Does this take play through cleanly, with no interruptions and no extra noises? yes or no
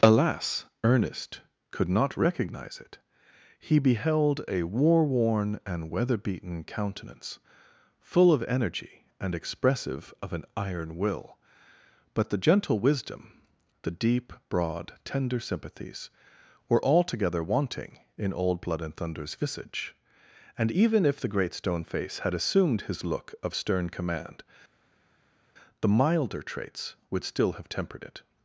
yes